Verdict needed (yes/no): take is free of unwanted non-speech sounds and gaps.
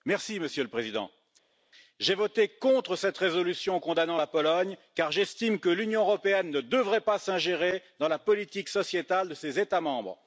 yes